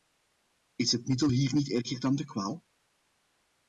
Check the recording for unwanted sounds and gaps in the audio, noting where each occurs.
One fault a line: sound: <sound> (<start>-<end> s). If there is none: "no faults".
no faults